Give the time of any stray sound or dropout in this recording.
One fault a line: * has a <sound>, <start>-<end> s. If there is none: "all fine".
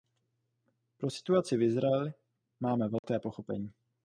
* has a dropout, 3.0-3.0 s